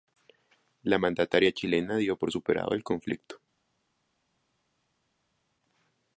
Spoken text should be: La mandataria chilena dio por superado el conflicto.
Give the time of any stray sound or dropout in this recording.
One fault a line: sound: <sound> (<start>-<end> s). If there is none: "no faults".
no faults